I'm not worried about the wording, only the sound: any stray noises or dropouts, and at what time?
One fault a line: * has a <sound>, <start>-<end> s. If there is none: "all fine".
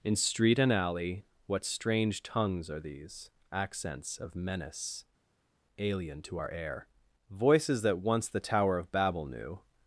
all fine